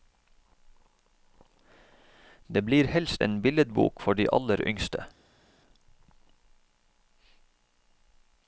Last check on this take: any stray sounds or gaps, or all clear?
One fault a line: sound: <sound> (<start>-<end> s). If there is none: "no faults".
no faults